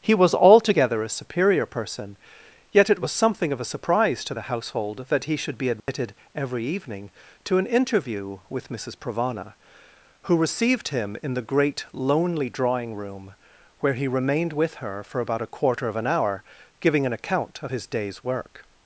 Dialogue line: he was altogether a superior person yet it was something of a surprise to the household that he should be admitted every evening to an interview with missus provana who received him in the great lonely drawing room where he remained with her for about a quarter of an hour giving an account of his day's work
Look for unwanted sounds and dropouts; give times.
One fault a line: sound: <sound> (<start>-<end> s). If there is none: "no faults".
sound: dropout (5.8-5.9 s)